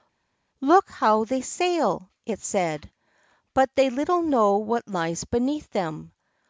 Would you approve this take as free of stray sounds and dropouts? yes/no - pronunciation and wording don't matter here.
yes